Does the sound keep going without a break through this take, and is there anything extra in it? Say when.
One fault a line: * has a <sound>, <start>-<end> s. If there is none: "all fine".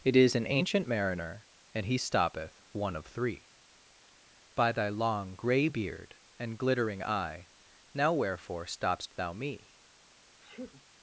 * has a sneeze, 10.4-10.8 s